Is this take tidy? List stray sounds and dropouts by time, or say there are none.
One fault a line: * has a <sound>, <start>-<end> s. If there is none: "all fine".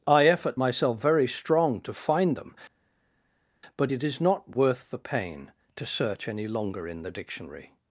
all fine